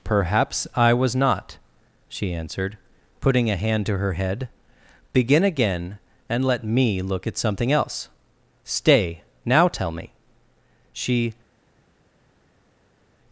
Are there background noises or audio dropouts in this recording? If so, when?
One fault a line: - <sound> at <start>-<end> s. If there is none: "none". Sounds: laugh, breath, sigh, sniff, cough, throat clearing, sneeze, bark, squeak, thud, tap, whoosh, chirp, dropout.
none